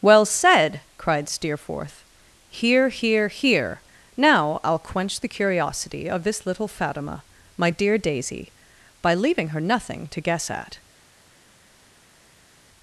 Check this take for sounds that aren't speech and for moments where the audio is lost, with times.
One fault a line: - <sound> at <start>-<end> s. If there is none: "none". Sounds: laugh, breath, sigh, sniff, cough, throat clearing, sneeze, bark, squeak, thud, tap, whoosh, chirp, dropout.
none